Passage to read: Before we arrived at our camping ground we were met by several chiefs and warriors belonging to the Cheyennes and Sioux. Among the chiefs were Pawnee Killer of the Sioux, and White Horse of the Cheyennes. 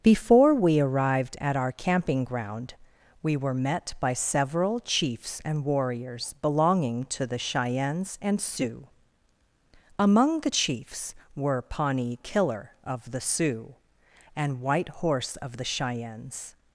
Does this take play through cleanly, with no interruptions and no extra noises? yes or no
yes